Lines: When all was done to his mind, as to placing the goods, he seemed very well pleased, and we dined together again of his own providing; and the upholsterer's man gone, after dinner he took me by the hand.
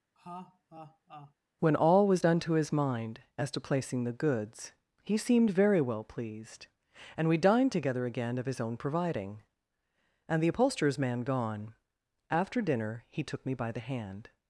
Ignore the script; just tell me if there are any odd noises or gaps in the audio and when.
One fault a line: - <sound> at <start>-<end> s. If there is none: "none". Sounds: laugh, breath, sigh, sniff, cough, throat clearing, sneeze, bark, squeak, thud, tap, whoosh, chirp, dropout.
- laugh at 0.2-1.3 s